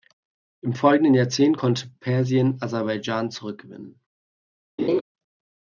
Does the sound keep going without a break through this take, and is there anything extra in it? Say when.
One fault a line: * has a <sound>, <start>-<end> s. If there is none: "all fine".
* has a laugh, 4.8-5.0 s